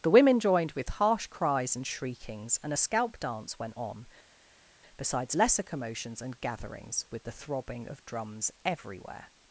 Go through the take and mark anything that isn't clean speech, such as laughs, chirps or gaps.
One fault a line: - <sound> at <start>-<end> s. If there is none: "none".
none